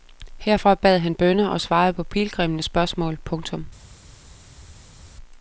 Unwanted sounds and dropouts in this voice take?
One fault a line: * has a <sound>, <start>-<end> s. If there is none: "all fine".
all fine